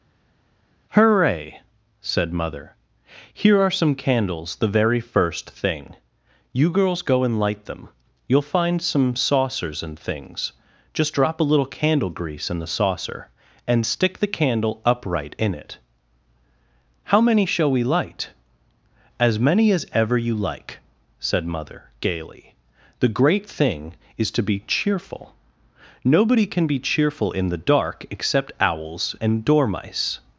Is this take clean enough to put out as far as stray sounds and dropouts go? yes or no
yes